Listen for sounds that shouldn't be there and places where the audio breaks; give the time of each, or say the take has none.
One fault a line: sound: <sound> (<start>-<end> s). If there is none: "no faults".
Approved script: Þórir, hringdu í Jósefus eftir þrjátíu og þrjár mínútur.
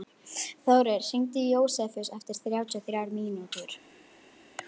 no faults